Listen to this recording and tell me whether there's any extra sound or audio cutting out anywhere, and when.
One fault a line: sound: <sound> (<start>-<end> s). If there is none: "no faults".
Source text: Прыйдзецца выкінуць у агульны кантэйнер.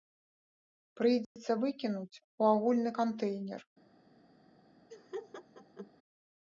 sound: dropout (1.2-1.4 s)
sound: laugh (4.9-5.9 s)